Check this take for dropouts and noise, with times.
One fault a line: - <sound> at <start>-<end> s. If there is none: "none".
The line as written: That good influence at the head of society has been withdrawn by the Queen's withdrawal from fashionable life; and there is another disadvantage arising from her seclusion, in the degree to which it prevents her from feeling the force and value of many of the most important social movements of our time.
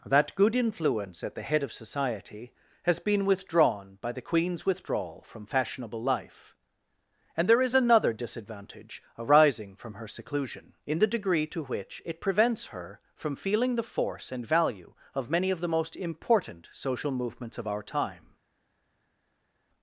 none